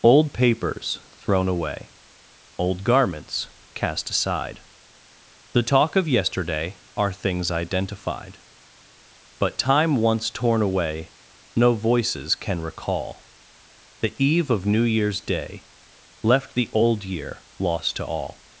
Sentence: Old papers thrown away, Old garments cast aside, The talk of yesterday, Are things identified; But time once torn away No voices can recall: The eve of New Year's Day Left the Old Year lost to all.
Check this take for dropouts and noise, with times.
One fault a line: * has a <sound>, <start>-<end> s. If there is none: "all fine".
all fine